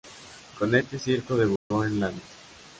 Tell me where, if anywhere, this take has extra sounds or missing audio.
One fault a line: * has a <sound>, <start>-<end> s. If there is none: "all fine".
* has a dropout, 1.6-1.7 s